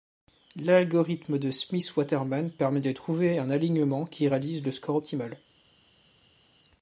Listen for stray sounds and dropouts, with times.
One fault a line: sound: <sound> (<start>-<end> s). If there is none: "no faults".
no faults